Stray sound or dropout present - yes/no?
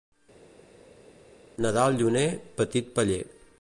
no